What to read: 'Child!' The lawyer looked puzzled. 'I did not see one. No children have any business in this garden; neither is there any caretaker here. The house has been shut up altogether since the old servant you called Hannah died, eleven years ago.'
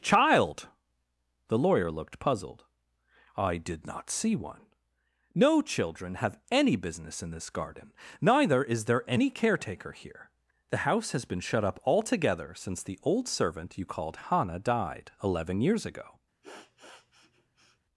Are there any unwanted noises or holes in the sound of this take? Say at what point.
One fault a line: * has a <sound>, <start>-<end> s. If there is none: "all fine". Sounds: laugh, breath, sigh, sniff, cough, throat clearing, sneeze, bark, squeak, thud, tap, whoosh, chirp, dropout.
* has a sniff, 16.4-17.8 s